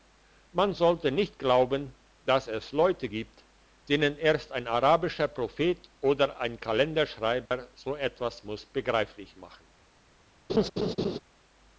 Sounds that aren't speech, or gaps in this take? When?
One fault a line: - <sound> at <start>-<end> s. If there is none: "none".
- dropout at 7.5-7.5 s
- laugh at 10.5-11.2 s